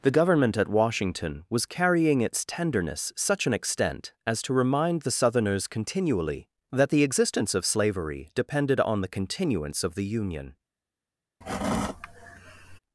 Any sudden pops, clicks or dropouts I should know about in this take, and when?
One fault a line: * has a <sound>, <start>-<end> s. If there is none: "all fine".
* has a sigh, 11.4-12.8 s